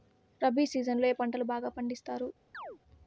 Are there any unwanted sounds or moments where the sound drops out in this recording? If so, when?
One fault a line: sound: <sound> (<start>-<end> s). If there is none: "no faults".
sound: chirp (2.5-2.8 s)